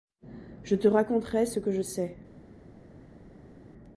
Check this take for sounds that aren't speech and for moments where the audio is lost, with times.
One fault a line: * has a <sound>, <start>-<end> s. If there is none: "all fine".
all fine